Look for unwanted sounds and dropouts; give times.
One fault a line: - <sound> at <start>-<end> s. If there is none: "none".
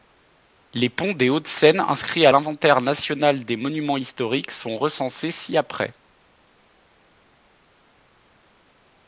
none